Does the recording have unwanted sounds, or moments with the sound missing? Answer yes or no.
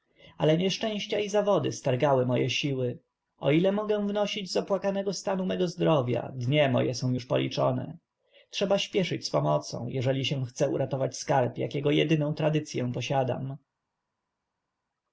no